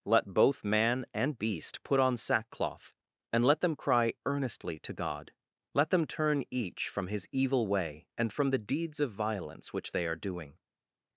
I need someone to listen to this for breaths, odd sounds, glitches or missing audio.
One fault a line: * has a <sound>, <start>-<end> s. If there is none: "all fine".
all fine